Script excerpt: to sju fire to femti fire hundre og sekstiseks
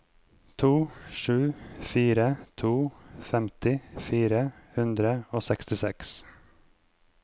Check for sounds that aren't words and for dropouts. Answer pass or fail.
pass